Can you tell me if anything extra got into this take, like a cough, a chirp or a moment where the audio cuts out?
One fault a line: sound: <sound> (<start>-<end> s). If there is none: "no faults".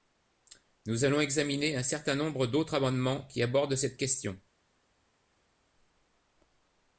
no faults